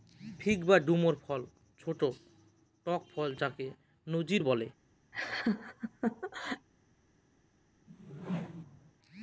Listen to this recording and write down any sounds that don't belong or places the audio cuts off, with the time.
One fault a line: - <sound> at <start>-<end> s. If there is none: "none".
- laugh at 5.1-6.7 s
- whoosh at 7.9-8.9 s